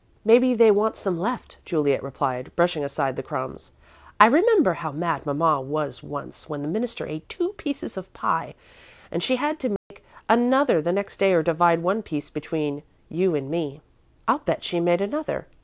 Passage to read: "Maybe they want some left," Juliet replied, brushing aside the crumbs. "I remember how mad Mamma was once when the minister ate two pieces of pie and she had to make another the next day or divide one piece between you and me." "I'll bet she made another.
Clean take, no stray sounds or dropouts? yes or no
no